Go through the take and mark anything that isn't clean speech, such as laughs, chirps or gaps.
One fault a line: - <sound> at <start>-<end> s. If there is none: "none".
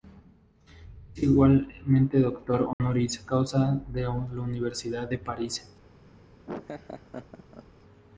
- dropout at 2.7-2.8 s
- laugh at 6.5-7.7 s